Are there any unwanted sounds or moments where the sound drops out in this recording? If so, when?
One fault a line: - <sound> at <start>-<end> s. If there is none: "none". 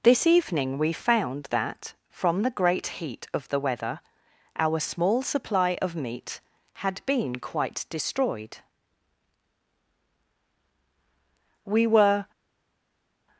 none